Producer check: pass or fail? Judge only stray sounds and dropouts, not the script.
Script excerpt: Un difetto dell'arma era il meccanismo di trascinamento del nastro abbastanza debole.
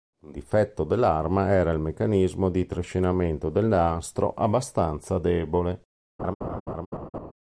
fail